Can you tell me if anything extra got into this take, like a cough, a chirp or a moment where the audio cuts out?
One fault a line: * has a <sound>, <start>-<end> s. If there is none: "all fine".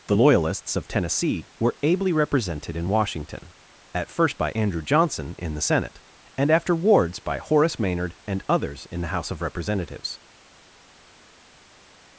all fine